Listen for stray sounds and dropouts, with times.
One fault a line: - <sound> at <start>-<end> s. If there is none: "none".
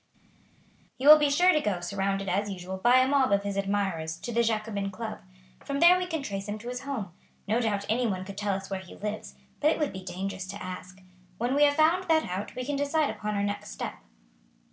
none